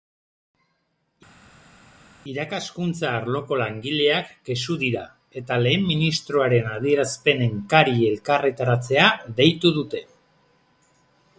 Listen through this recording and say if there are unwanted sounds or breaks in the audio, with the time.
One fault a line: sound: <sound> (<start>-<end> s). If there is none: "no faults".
no faults